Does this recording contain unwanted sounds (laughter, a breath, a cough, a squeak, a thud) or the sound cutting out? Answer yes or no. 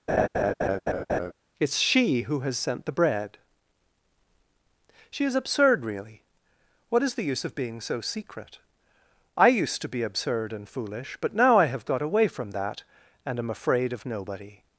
yes